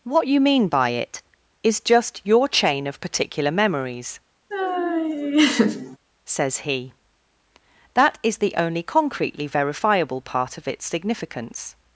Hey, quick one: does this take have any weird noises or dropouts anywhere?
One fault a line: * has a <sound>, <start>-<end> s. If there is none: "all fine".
* has a laugh, 4.5-6.0 s